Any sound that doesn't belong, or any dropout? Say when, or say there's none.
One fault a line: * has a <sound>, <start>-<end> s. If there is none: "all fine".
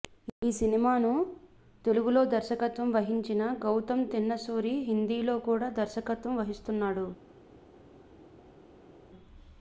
all fine